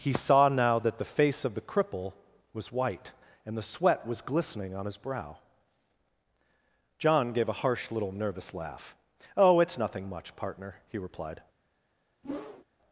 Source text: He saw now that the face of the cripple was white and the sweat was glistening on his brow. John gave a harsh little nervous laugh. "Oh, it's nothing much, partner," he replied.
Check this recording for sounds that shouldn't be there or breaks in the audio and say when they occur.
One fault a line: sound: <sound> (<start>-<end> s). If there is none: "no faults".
sound: whoosh (12.2-12.6 s)